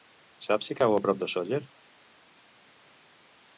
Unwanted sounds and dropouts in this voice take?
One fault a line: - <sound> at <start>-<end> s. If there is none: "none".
none